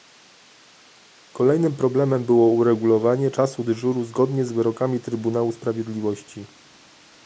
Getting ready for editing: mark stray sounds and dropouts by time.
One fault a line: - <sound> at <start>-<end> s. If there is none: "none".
none